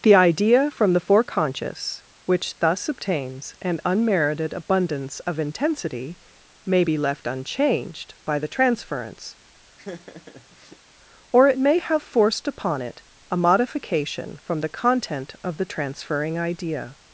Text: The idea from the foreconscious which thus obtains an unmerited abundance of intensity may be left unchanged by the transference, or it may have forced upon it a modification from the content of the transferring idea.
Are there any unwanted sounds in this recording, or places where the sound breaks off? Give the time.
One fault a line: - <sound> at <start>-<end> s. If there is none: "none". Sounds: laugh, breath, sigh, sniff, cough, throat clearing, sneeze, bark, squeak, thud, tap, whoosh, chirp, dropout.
- laugh at 9.8-10.8 s